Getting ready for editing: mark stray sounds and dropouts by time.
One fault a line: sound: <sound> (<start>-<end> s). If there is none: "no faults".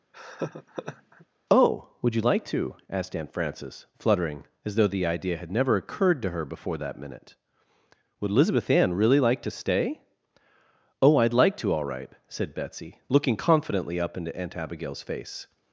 sound: laugh (0.1-1.3 s)